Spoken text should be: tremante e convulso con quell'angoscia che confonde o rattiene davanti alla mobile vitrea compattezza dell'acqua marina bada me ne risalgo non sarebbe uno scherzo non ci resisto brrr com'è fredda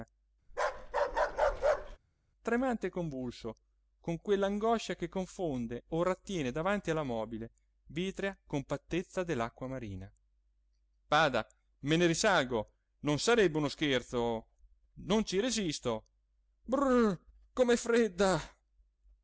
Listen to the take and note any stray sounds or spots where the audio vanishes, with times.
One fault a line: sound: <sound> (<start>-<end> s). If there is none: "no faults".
sound: bark (0.5-2.0 s)